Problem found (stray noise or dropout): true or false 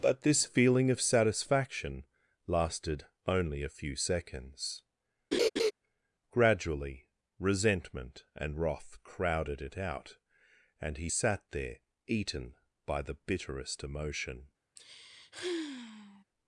true